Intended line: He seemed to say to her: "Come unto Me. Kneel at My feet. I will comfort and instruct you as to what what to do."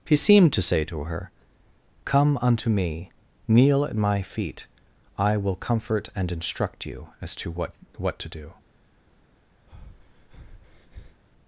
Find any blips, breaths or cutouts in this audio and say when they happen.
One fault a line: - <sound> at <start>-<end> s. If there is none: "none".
- breath at 9.7-11.2 s